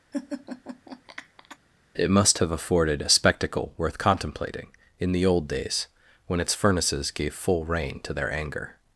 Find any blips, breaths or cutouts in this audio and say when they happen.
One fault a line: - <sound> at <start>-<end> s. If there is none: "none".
- laugh at 0.1-1.6 s